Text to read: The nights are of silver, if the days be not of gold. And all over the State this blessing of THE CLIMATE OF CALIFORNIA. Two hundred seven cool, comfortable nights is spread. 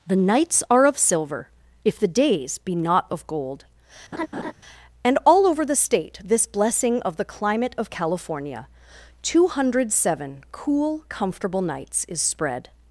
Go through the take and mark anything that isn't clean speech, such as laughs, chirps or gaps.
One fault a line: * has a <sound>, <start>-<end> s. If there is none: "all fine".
* has a laugh, 4.1-4.5 s